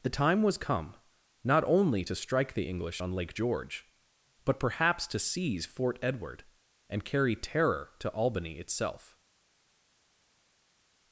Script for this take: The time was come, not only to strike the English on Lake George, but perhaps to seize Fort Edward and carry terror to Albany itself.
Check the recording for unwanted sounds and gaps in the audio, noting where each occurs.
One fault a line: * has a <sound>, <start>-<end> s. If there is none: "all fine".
all fine